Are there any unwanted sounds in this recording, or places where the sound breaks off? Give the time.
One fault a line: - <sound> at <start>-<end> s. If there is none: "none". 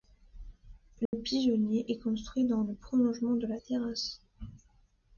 - dropout at 1.1-1.1 s